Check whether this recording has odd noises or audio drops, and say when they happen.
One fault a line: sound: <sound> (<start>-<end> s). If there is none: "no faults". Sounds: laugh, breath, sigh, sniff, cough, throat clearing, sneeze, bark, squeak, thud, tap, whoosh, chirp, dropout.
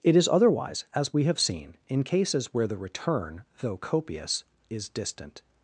no faults